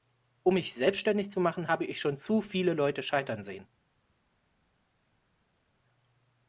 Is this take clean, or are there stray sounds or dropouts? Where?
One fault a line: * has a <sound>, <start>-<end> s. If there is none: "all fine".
all fine